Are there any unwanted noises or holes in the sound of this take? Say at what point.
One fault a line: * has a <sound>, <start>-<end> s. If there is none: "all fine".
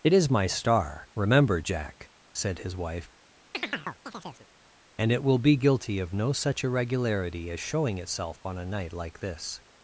* has a chirp, 3.5-4.5 s